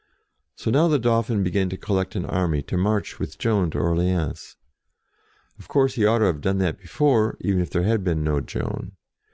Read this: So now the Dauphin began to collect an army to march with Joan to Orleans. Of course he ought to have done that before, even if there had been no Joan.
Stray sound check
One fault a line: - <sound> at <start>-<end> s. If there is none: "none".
none